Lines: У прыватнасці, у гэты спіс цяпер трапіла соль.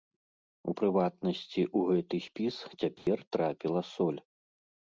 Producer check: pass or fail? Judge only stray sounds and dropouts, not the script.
fail